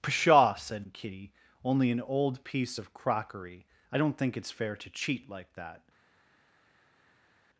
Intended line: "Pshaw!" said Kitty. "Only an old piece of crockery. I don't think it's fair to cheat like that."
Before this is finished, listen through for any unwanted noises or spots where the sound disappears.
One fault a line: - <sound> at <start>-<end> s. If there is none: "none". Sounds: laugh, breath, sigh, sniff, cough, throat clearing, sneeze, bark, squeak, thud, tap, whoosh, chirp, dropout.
none